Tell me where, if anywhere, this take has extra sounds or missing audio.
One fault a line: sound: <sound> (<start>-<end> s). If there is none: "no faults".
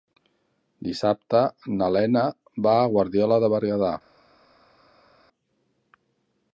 no faults